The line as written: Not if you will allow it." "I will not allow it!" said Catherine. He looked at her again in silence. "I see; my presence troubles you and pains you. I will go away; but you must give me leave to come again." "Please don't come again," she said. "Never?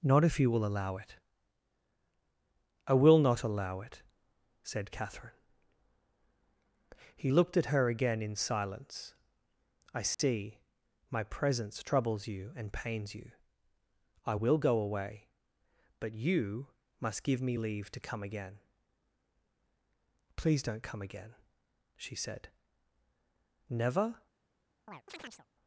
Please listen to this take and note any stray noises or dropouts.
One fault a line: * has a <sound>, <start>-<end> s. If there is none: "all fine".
* has a dropout, 10.1-10.2 s
* has a chirp, 24.9-25.5 s